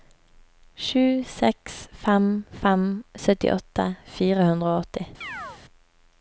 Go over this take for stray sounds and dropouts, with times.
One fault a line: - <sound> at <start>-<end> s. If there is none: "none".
- chirp at 5.2-5.6 s